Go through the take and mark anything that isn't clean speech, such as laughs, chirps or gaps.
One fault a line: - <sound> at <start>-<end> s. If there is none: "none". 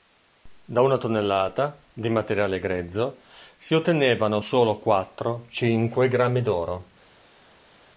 none